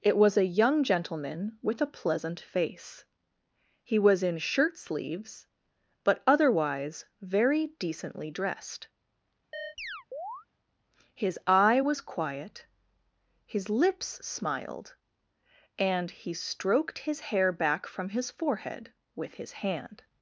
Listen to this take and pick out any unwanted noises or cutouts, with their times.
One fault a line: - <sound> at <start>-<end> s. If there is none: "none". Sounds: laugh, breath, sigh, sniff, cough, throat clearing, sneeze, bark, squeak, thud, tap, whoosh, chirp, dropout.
- chirp at 9.5-10.5 s